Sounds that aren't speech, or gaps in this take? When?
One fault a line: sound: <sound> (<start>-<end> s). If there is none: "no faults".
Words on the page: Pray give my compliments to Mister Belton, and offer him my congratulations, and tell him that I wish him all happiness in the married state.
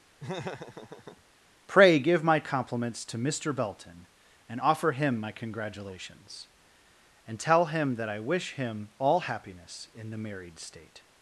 sound: laugh (0.2-1.2 s)